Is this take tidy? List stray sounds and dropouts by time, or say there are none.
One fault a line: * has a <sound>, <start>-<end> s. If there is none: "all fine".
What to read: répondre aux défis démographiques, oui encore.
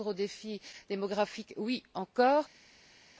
all fine